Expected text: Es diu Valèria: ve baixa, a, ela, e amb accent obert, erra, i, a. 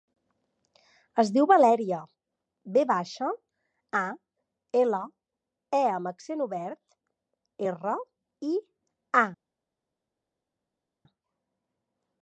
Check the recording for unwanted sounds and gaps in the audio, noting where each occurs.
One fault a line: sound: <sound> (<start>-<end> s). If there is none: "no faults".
no faults